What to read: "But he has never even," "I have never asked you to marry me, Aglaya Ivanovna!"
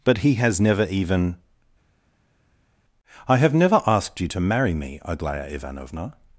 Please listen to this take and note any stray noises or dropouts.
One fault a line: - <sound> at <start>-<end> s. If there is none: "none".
none